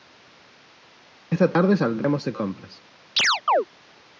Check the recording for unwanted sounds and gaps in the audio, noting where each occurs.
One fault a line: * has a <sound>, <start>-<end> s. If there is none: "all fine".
* has a chirp, 3.2-3.7 s